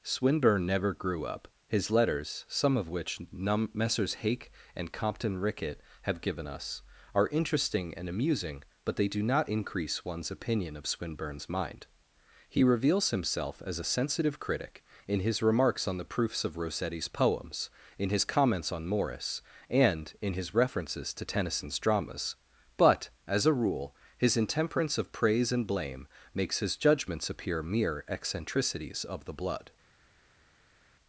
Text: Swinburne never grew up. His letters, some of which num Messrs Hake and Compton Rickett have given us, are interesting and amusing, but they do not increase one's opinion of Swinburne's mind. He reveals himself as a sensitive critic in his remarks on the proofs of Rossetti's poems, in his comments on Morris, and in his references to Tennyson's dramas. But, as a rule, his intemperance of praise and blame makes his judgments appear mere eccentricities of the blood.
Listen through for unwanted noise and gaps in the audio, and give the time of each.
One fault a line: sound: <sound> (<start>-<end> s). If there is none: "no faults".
no faults